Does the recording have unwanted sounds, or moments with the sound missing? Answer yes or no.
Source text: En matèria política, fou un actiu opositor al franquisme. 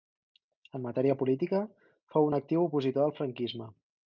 no